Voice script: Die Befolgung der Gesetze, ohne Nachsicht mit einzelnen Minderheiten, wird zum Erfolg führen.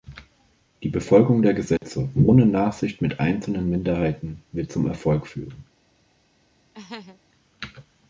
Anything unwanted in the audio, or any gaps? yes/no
yes